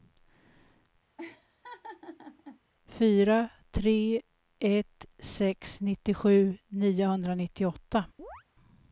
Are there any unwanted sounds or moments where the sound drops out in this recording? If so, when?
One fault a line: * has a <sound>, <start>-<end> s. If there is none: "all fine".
* has a laugh, 1.2-2.6 s
* has a chirp, 8.2-8.4 s